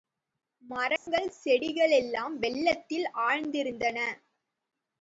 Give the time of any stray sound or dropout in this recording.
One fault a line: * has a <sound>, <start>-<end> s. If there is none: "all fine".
* has a dropout, 1.0-1.1 s